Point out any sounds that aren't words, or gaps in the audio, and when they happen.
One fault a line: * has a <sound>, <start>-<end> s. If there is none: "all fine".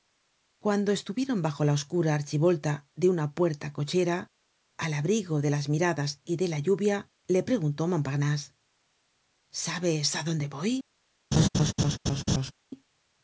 * has a laugh, 11.3-12.5 s